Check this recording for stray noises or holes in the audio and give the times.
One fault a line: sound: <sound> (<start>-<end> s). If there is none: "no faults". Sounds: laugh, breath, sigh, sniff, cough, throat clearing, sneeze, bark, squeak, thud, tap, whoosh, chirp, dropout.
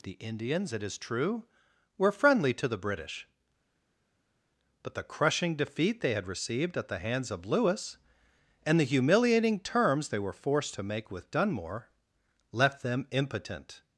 no faults